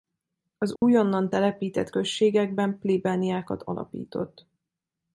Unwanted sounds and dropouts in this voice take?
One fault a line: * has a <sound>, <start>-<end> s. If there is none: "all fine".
* has a dropout, 0.8-0.8 s